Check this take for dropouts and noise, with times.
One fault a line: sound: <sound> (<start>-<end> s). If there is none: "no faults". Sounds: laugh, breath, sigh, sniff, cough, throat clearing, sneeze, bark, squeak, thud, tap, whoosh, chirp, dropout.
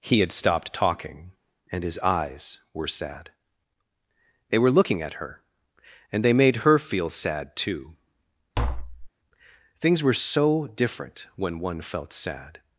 sound: tap (8.6-9.1 s)